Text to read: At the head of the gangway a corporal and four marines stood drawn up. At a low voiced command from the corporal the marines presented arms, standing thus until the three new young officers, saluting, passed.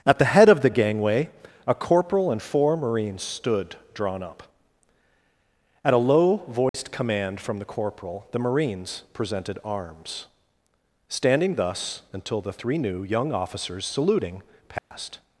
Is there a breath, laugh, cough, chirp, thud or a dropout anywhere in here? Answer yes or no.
yes